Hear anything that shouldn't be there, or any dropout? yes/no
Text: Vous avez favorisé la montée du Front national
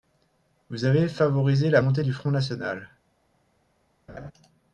yes